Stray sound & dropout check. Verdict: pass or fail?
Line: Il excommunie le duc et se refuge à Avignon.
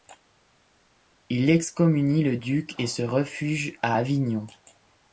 pass